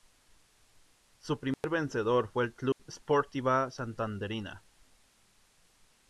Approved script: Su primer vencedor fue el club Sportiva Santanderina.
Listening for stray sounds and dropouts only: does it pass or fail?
fail